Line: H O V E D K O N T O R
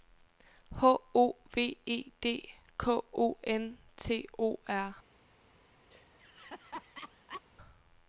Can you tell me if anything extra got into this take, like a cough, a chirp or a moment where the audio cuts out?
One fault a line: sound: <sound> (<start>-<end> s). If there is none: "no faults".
sound: laugh (5.9-7.4 s)